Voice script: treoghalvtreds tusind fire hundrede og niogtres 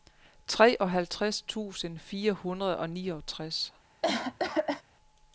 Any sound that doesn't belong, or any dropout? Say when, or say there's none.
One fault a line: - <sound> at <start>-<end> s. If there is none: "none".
- cough at 4.0-4.8 s